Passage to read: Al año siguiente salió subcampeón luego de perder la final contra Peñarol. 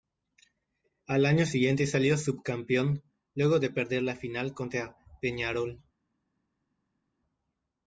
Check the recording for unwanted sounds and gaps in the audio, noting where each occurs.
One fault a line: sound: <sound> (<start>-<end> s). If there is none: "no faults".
no faults